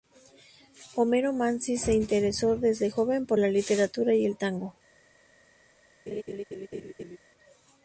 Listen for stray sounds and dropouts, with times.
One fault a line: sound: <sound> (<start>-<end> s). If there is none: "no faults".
sound: laugh (6.1-7.2 s)